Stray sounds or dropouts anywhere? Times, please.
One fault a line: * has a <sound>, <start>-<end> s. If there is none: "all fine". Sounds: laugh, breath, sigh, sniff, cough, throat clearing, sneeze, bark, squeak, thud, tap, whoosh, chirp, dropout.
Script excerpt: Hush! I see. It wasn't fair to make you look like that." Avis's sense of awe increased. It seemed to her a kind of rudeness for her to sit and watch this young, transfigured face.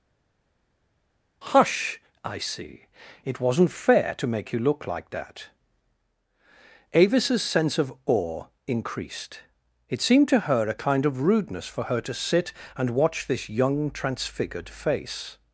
all fine